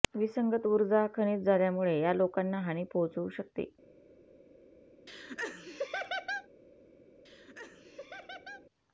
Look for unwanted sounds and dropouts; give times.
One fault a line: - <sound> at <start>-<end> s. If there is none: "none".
- laugh at 5.1-6.5 s
- laugh at 7.3-8.7 s